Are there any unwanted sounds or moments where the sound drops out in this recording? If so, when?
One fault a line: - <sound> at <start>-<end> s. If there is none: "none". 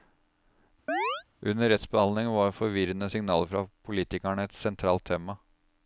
- chirp at 0.9-1.2 s